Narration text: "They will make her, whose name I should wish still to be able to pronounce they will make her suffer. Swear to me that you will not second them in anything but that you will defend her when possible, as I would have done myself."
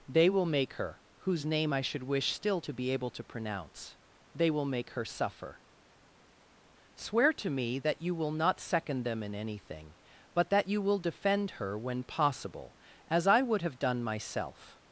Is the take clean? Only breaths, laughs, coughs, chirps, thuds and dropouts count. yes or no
yes